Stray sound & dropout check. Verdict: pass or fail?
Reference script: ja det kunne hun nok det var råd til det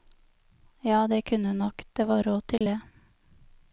fail